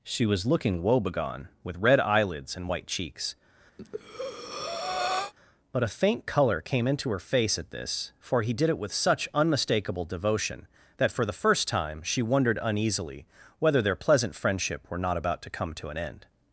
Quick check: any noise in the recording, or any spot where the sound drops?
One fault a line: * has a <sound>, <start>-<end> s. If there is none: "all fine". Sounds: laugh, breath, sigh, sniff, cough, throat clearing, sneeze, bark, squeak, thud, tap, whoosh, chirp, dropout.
* has a breath, 3.8-5.3 s